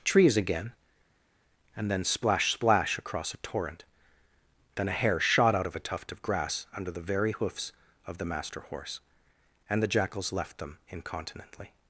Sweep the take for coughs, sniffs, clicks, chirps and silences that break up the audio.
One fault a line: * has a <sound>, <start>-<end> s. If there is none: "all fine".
all fine